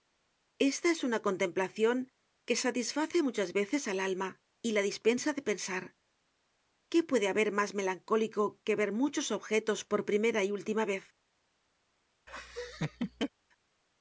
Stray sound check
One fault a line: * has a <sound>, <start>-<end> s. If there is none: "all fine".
* has a laugh, 12.3-13.3 s